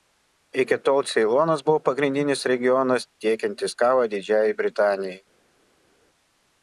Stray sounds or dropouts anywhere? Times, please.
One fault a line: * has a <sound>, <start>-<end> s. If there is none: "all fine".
all fine